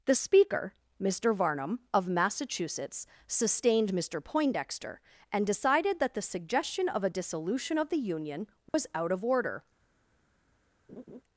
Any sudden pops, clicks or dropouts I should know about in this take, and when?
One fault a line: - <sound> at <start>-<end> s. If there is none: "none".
- dropout at 8.7-8.7 s
- laugh at 10.9-11.2 s